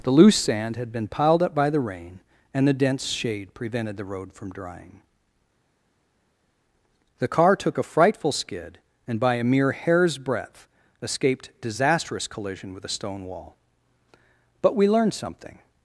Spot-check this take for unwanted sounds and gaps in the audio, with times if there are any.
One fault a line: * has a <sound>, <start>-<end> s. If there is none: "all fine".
all fine